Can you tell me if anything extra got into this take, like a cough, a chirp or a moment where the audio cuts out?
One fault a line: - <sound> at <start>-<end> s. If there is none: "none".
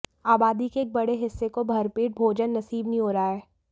none